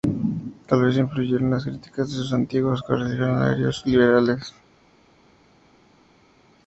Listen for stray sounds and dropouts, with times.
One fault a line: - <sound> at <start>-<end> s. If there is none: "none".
none